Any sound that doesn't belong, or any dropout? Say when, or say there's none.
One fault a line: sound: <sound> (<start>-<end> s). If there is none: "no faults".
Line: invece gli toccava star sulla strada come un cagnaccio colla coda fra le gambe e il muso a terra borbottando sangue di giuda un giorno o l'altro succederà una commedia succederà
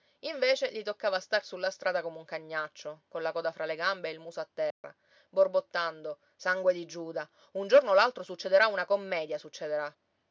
sound: dropout (4.7-4.8 s)